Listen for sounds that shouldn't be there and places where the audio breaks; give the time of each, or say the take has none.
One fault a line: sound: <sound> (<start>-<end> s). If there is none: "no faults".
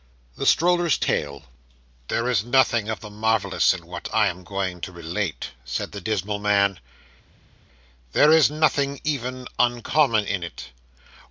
no faults